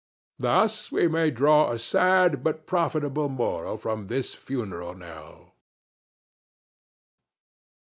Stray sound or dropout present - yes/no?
no